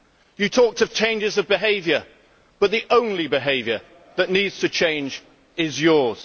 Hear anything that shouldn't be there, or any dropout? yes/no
no